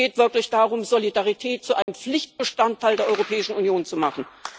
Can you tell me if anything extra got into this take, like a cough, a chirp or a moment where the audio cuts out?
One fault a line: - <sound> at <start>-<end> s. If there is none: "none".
- dropout at 1.8-1.9 s